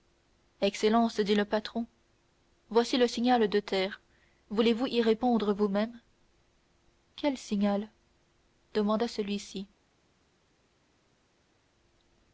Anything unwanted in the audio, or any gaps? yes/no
no